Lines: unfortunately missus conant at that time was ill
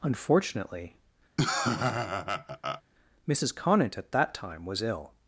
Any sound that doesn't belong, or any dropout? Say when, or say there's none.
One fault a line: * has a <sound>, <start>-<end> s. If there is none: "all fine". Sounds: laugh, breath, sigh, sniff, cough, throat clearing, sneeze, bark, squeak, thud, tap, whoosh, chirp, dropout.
* has a laugh, 1.4-2.8 s